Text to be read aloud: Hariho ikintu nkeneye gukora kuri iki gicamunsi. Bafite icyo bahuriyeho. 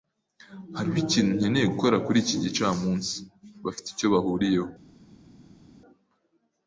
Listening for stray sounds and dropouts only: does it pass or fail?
pass